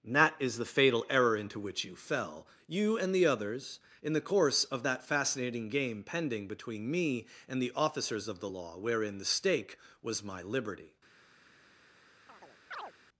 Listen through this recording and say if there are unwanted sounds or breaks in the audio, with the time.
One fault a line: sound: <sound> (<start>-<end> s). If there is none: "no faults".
sound: chirp (12.3-12.9 s)